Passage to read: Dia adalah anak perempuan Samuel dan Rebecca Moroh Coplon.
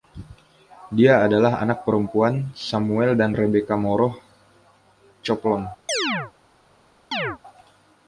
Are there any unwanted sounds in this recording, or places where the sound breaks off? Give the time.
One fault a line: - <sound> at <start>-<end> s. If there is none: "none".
- chirp at 5.9-6.3 s
- chirp at 7.1-7.4 s